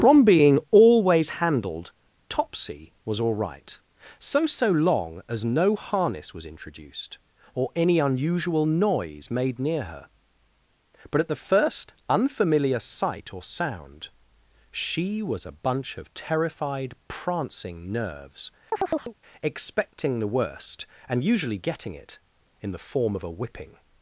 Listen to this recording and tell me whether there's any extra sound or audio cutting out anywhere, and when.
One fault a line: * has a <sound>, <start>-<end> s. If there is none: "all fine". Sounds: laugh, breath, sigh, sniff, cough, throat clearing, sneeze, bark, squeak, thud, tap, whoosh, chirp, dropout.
* has a chirp, 18.7-19.2 s